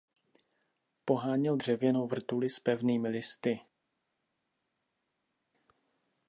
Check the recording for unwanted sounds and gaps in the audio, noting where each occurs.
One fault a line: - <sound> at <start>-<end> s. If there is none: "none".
none